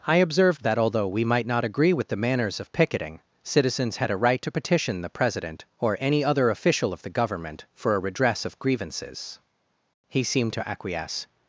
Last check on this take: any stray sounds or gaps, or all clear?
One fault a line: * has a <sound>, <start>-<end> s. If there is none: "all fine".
all fine